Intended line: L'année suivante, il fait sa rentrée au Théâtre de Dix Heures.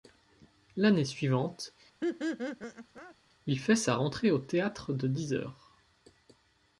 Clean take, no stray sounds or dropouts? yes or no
no